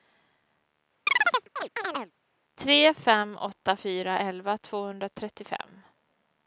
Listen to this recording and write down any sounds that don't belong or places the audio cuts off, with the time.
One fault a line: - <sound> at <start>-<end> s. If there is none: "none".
- chirp at 1.1-2.1 s